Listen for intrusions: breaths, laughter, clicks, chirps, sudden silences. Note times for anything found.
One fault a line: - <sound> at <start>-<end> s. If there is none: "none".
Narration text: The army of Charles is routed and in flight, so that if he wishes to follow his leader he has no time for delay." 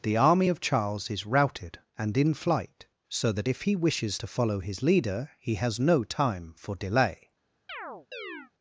- chirp at 7.7-8.5 s